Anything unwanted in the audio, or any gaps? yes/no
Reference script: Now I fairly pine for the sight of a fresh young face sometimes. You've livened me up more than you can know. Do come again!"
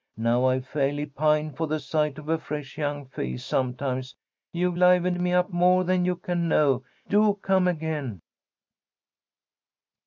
no